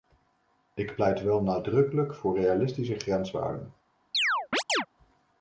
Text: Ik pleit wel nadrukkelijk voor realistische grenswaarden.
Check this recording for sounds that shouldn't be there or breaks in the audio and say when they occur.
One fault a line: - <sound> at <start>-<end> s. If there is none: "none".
- chirp at 4.1-4.9 s